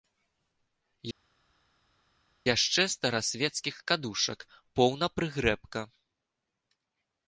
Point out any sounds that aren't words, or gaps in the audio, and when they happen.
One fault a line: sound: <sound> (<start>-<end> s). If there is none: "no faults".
no faults